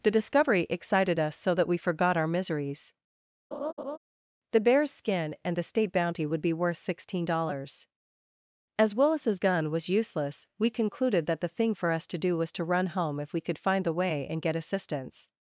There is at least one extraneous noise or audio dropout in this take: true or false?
true